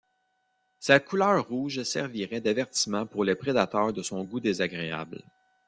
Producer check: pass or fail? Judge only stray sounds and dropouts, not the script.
pass